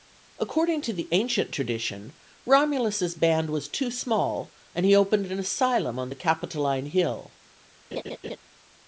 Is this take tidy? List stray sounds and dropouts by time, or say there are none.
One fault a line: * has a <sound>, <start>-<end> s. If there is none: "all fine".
* has a laugh, 7.9-8.4 s